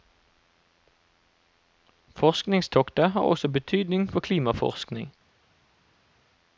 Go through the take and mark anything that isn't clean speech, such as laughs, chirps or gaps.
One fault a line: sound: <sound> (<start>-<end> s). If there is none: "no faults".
no faults